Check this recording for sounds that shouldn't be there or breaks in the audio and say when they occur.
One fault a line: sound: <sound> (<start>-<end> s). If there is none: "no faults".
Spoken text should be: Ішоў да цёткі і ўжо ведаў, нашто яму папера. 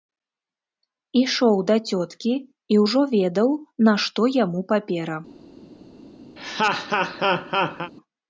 sound: laugh (6.4-7.9 s)